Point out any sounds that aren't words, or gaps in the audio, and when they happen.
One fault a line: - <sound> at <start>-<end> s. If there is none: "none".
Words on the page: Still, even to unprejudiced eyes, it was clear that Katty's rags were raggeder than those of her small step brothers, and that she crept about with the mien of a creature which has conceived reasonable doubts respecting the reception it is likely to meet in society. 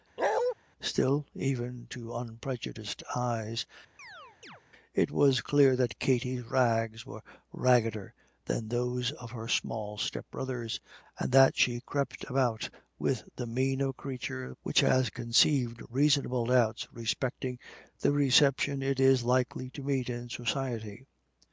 - bark at 0.2-0.5 s
- chirp at 4.0-4.6 s